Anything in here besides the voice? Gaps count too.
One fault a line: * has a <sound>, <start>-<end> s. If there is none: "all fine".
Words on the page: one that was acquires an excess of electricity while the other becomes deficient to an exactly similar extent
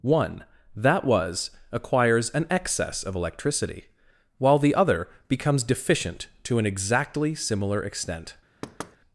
* has a thud, 8.6-9.0 s